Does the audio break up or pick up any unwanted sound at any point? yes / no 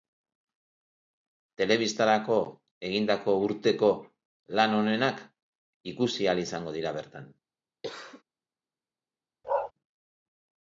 yes